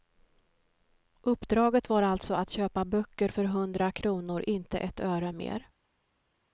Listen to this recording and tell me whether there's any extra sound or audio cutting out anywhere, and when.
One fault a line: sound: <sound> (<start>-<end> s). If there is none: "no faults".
no faults